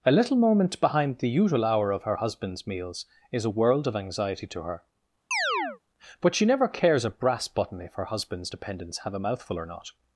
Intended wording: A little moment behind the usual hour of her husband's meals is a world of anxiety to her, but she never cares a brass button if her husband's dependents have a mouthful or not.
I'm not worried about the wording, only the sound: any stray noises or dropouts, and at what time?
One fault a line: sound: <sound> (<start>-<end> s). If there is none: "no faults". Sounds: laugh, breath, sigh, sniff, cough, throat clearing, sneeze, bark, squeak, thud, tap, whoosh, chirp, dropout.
sound: chirp (5.3-5.8 s)